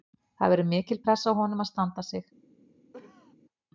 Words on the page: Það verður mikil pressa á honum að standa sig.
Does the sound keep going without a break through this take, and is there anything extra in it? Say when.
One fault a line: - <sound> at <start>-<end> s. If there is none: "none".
- cough at 2.9-3.4 s